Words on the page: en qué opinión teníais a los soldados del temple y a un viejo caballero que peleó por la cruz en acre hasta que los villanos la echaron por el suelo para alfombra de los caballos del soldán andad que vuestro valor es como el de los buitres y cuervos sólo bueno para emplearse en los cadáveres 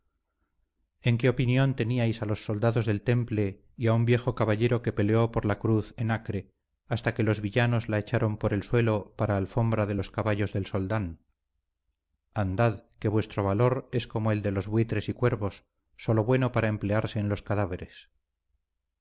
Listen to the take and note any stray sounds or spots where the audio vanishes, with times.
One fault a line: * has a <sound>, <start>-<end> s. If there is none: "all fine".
all fine